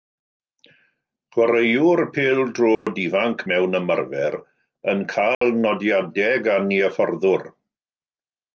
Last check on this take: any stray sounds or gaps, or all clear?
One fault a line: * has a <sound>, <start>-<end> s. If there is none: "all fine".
* has a dropout, 2.8-2.9 s
* has a dropout, 5.3-5.4 s